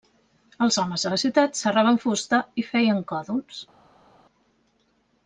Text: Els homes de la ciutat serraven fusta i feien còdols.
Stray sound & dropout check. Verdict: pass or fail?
pass